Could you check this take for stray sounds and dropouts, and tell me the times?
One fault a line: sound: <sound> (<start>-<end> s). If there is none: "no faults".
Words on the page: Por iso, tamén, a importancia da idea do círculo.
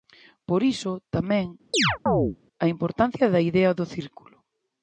sound: chirp (1.7-2.4 s)